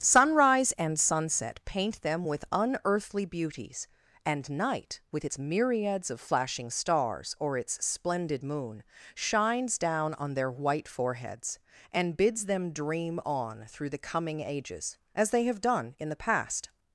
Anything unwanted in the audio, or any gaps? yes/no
no